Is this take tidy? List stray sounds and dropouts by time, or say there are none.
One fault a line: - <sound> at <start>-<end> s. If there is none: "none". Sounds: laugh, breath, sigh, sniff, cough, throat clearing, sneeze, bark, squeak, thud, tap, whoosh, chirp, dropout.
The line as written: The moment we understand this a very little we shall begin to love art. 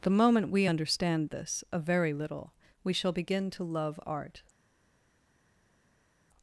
none